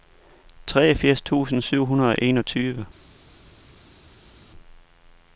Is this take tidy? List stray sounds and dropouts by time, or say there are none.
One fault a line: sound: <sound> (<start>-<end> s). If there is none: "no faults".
no faults